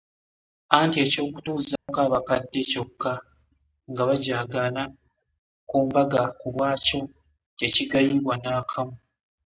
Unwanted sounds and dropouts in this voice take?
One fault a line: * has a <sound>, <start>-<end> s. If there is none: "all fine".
* has a dropout, 1.8-1.9 s